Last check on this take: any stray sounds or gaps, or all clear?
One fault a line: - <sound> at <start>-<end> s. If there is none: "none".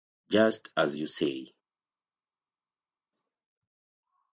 none